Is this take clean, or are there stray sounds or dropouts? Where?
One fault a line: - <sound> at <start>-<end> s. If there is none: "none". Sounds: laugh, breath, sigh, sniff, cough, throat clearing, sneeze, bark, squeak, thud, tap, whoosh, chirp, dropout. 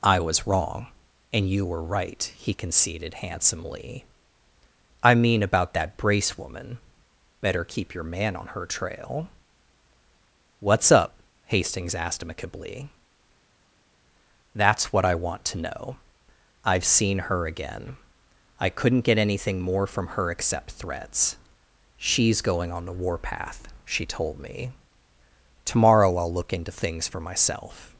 none